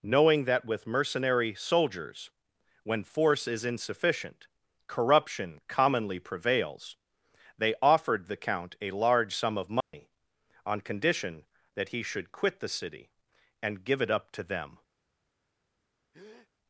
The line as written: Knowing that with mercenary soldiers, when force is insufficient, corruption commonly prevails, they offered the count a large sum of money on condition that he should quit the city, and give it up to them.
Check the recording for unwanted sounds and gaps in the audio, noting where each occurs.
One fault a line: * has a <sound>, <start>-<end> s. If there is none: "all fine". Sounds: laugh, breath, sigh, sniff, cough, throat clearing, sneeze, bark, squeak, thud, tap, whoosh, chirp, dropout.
* has a dropout, 9.8-9.9 s
* has a breath, 16.1-16.5 s